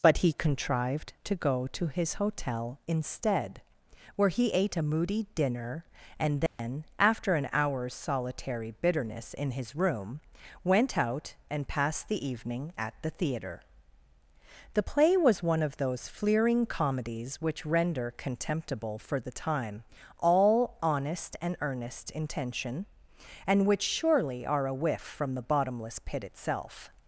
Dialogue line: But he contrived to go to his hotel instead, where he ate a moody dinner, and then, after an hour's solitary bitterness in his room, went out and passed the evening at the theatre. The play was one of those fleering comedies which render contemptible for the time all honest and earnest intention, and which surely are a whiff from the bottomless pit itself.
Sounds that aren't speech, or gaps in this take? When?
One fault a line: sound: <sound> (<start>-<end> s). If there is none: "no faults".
sound: dropout (6.5-6.6 s)